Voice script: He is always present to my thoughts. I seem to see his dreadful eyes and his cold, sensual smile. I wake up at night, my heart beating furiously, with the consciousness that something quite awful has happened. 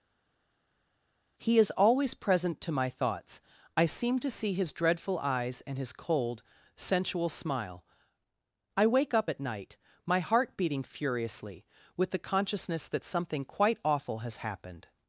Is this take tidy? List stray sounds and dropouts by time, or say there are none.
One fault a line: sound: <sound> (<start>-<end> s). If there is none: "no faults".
no faults